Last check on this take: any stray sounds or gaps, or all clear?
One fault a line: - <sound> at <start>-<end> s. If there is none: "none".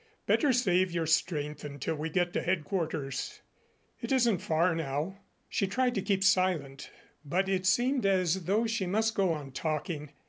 none